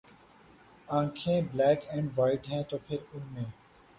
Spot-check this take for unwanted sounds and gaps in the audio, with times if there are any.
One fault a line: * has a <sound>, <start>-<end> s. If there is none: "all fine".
all fine